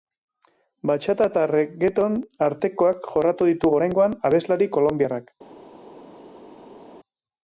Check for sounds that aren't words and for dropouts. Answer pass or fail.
pass